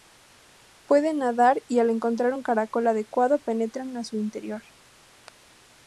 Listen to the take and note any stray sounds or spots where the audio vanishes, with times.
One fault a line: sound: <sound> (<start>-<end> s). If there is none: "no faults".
no faults